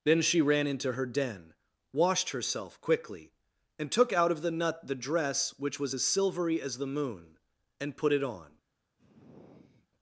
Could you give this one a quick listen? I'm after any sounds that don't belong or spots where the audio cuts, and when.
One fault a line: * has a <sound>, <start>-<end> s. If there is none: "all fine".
* has a sigh, 9.0-9.9 s